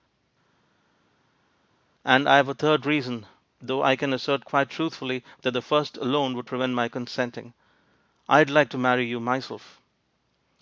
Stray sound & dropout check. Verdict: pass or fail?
pass